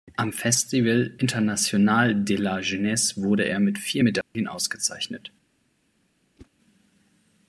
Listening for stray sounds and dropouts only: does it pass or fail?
fail